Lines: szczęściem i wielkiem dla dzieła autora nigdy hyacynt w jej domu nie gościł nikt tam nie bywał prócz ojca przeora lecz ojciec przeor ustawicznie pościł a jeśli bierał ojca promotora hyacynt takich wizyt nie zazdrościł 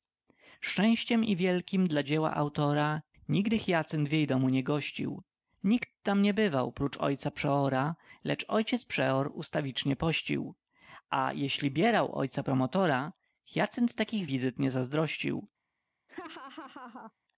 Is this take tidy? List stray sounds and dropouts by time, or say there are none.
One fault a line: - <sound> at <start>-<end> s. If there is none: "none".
- laugh at 16.1-17.1 s